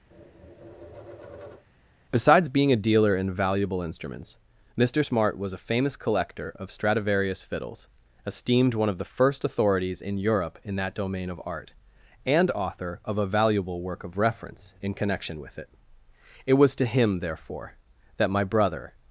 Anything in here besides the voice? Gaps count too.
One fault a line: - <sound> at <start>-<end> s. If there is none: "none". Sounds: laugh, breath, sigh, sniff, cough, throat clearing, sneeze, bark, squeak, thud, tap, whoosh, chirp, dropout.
- tap at 0.1-1.7 s